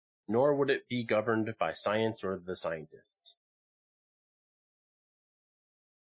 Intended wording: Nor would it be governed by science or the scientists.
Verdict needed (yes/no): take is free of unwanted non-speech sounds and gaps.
yes